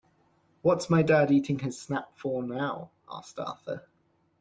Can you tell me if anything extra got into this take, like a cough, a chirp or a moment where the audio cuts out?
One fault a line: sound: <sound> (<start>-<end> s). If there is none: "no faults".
no faults